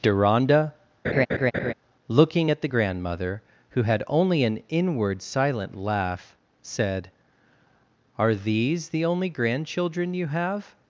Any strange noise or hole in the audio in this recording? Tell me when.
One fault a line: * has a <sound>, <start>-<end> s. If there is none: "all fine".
* has a laugh, 1.0-1.7 s